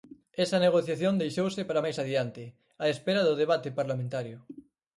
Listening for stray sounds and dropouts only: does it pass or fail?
pass